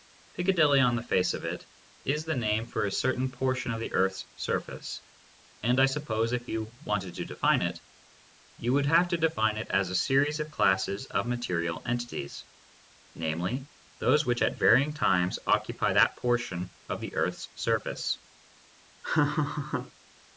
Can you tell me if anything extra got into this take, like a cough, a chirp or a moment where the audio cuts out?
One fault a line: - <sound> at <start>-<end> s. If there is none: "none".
- laugh at 19.0-19.9 s